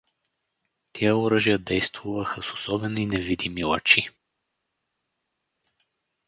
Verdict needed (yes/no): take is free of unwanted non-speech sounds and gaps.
yes